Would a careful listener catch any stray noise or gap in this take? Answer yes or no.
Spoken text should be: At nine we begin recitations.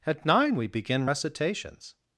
no